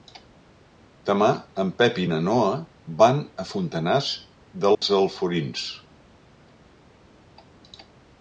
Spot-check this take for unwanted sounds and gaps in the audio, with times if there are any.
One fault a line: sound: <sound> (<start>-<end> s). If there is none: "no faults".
sound: dropout (4.7-4.8 s)